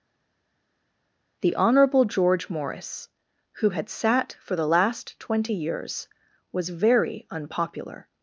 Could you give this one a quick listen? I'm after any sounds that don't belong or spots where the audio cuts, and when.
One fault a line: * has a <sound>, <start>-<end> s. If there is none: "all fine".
all fine